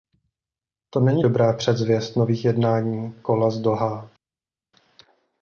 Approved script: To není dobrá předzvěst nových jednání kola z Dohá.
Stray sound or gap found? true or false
false